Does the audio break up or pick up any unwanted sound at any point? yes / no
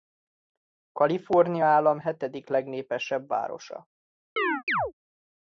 yes